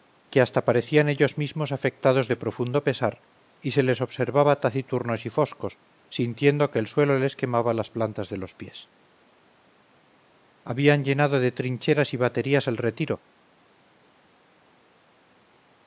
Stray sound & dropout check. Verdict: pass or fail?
pass